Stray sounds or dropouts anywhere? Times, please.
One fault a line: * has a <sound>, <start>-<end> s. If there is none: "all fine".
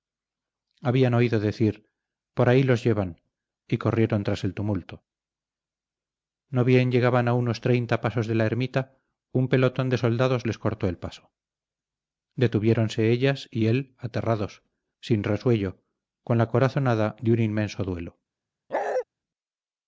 * has a bark, 18.7-19.0 s